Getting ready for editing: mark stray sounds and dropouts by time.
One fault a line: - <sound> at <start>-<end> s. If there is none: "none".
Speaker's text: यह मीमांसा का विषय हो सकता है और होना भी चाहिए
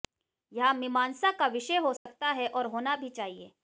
- dropout at 2.0-2.1 s